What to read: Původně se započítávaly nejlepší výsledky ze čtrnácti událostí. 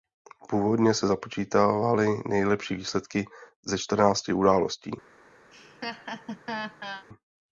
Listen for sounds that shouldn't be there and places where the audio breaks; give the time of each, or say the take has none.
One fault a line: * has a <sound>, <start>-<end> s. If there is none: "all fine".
* has a laugh, 5.5-7.1 s